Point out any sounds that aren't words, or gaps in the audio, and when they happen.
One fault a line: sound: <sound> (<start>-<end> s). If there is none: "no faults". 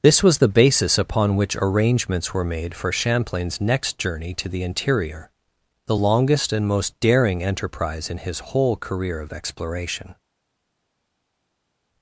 no faults